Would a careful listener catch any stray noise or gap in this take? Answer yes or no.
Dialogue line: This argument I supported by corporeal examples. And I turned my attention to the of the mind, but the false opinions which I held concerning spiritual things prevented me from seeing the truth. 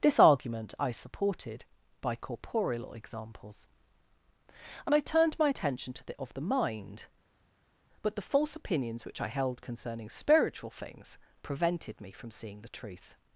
no